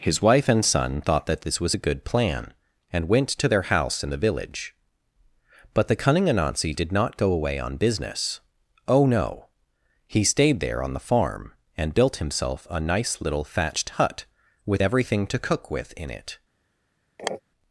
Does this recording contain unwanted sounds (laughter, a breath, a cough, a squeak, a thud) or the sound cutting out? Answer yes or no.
yes